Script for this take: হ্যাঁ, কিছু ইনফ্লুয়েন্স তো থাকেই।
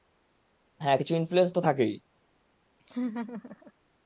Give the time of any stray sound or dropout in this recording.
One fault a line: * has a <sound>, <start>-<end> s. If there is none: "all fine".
* has a laugh, 2.8-3.7 s